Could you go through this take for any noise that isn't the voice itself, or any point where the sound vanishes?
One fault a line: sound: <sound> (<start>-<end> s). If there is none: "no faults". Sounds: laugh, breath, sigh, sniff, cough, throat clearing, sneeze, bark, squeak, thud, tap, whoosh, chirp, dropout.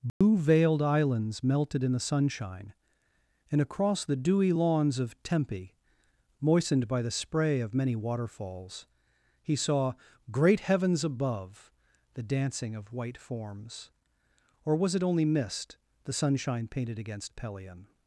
sound: dropout (0.1-0.2 s)